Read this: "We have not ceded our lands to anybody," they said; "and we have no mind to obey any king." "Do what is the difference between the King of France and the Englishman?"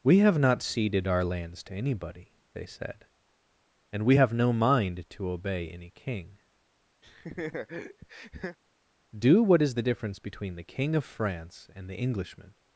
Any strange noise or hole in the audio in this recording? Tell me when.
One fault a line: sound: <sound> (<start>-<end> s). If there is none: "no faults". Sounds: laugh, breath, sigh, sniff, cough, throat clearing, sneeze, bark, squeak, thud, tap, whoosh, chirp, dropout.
sound: laugh (7.0-8.6 s)